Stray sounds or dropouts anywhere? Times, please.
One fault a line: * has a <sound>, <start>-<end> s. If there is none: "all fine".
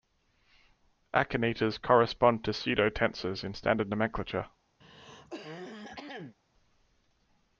* has a throat clearing, 4.8-6.4 s